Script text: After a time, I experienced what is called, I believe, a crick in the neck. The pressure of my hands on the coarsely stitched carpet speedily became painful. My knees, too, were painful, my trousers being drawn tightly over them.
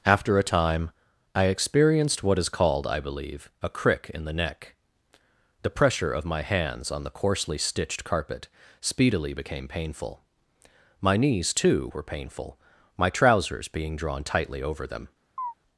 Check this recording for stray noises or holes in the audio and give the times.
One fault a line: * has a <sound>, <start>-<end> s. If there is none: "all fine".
* has a chirp, 15.4-15.5 s